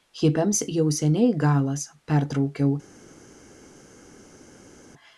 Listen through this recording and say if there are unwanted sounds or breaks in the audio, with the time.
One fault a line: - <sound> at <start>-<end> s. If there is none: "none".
none